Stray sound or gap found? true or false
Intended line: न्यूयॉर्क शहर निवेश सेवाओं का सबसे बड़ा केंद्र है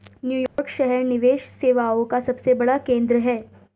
true